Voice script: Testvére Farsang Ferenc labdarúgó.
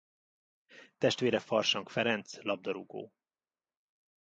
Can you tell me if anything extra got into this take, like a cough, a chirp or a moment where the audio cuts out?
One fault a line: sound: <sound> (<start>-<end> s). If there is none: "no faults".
no faults